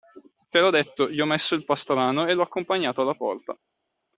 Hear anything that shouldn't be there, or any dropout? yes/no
no